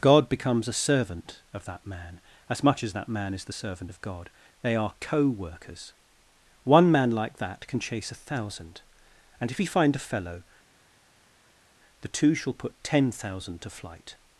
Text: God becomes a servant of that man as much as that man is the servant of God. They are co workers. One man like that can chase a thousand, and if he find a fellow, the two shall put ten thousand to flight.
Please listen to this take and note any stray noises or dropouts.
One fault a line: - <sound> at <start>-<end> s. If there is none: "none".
none